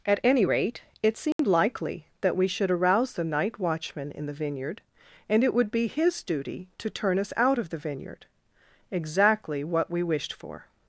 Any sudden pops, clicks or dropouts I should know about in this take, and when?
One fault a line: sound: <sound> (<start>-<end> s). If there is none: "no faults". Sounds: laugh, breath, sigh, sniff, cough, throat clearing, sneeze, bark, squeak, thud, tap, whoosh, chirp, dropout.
sound: dropout (1.3-1.4 s)